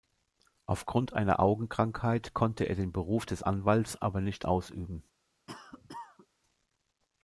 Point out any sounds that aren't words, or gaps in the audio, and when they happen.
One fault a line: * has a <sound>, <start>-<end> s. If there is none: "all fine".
* has a cough, 5.5-6.3 s